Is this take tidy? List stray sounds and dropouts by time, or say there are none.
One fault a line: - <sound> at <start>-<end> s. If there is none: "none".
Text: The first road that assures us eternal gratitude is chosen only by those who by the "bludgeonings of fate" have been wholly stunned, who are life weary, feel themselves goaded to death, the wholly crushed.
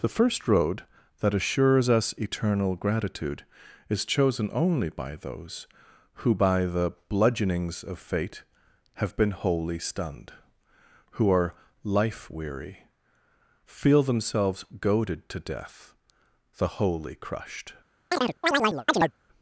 - chirp at 18.1-19.1 s